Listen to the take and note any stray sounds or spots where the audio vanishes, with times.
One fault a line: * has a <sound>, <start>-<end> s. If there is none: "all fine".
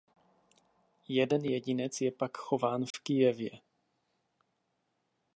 * has a dropout, 2.9-2.9 s